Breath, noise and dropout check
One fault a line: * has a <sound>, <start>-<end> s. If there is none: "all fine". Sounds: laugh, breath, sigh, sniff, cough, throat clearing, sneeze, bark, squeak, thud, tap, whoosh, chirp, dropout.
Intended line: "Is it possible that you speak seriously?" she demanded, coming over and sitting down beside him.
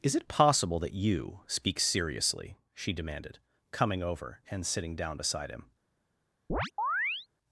* has a chirp, 6.5-7.3 s